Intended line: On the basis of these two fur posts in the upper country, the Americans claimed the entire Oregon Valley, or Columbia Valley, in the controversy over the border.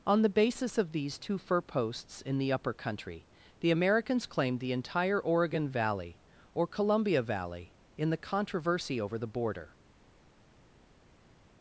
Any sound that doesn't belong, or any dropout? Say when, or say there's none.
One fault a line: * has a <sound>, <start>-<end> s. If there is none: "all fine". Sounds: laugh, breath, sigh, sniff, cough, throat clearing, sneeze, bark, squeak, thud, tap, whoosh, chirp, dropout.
all fine